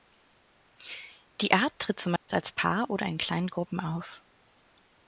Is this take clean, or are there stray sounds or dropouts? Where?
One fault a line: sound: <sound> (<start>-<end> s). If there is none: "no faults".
sound: dropout (2.2-2.3 s)